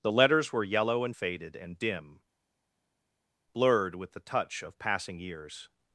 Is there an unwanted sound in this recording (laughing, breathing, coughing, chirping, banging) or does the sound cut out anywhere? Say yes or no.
no